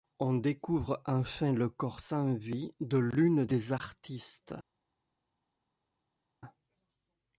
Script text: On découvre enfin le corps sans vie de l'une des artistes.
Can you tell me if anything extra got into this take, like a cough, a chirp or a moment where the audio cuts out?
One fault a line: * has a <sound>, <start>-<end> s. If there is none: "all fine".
all fine